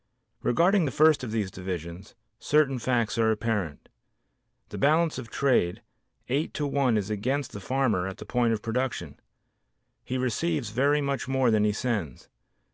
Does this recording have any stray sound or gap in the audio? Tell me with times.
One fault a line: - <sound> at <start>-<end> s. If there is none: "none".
none